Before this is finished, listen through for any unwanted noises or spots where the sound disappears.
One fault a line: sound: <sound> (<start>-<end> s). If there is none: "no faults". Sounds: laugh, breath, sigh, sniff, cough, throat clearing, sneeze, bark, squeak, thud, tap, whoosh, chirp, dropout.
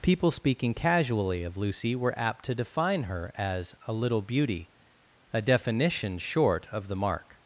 no faults